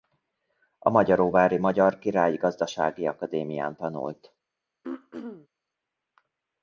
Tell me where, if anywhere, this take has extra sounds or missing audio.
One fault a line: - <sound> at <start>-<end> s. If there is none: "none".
- throat clearing at 4.8-5.5 s